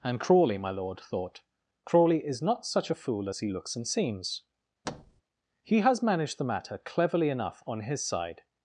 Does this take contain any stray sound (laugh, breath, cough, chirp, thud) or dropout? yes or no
yes